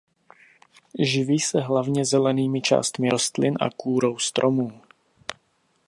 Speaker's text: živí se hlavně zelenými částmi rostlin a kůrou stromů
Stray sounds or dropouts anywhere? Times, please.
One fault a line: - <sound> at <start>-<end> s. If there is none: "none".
none